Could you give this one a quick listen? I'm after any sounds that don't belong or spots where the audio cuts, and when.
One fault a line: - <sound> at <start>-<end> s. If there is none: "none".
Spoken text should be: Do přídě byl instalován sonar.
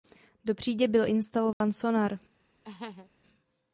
- dropout at 1.5-1.6 s
- laugh at 2.6-3.1 s